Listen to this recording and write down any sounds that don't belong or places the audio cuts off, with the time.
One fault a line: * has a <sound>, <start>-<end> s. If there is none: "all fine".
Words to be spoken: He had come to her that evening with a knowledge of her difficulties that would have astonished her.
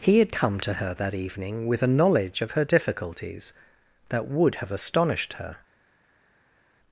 all fine